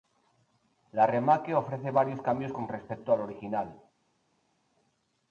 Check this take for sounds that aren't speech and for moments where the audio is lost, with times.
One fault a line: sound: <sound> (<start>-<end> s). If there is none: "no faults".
no faults